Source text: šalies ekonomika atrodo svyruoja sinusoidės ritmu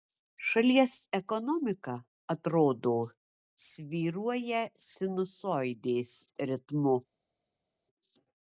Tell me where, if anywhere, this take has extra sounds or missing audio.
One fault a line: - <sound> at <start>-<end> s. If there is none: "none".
none